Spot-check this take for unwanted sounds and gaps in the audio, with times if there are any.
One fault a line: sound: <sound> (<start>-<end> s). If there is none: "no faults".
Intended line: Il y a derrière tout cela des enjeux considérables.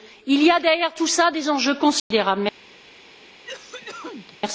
sound: dropout (2.0-2.1 s)
sound: cough (3.4-4.4 s)